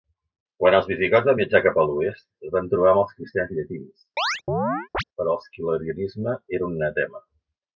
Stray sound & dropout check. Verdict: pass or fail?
fail